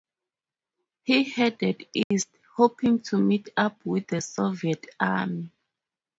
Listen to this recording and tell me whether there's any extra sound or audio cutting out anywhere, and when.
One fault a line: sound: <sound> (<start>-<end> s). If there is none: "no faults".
sound: dropout (2.0-2.1 s)